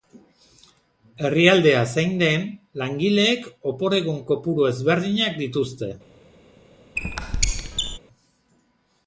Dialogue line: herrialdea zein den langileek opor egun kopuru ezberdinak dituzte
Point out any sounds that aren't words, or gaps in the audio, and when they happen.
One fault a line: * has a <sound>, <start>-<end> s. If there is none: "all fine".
* has a squeak, 7.0-8.0 s